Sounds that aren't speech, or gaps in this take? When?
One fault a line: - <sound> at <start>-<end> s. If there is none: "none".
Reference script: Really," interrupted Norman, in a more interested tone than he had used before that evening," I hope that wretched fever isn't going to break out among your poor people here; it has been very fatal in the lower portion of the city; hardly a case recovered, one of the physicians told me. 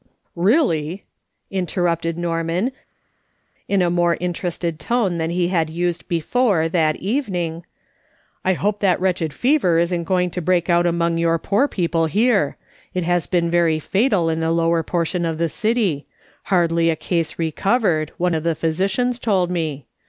none